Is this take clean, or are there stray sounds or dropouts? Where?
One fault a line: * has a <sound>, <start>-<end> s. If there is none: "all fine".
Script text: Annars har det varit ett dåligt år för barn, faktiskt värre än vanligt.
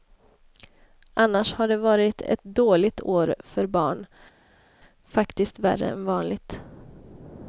all fine